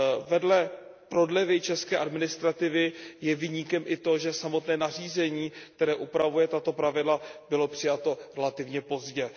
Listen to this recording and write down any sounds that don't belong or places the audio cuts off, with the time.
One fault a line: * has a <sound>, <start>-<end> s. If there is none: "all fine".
all fine